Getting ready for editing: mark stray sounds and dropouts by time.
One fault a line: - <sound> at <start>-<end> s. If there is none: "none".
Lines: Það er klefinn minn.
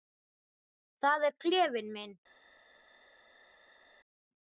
none